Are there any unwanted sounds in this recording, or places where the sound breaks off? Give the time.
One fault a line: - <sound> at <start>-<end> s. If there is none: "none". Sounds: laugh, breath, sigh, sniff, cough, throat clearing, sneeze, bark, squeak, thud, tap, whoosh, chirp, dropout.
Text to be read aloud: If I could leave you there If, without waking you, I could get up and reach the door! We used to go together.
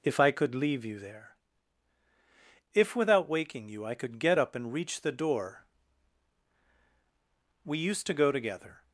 none